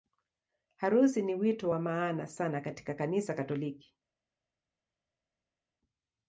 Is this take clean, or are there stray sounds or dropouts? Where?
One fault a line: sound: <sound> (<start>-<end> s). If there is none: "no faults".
no faults